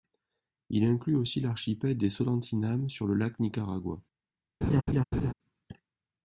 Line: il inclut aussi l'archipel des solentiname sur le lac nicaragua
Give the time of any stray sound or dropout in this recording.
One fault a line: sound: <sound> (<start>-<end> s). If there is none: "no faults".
sound: laugh (4.6-5.3 s)